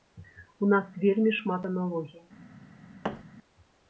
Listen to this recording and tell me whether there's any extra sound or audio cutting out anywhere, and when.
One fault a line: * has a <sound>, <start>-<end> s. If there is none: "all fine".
* has a thud, 3.0-3.2 s